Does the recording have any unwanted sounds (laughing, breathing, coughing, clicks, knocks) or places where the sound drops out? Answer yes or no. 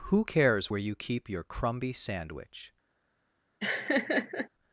yes